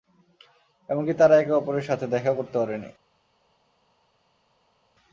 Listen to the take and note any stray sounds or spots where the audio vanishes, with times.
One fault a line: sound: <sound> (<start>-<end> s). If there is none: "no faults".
no faults